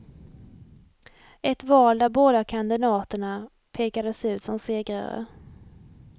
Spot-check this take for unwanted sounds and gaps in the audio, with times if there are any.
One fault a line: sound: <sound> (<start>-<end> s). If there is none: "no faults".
no faults